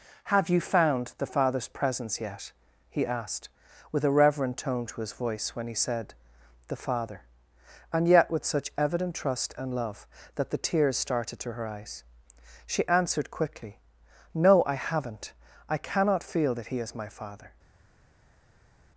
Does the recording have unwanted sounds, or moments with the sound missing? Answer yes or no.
no